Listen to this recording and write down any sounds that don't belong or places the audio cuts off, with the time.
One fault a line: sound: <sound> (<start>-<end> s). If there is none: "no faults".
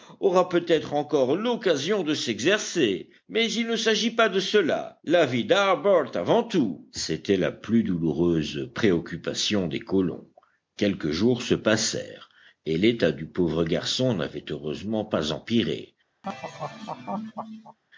sound: laugh (16.2-17.8 s)